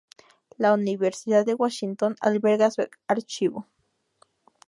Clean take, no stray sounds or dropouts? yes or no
yes